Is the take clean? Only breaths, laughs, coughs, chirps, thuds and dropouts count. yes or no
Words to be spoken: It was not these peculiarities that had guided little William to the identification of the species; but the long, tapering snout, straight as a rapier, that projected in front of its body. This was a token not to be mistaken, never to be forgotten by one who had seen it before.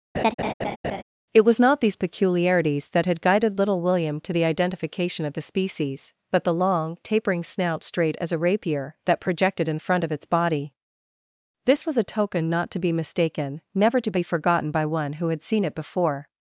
no